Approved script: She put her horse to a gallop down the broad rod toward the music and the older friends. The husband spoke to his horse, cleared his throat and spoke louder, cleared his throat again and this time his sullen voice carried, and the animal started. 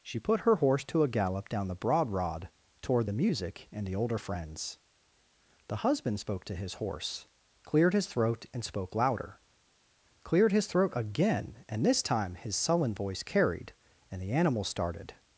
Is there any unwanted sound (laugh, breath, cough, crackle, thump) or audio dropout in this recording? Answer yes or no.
no